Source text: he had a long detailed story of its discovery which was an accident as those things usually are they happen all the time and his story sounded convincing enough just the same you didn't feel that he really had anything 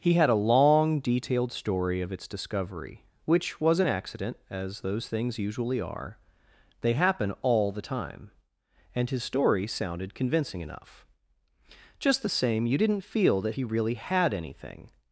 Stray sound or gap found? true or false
false